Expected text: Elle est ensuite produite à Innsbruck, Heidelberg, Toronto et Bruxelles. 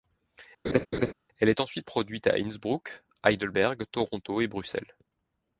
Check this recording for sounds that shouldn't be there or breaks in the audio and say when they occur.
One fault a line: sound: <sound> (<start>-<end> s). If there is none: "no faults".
sound: laugh (0.6-1.1 s)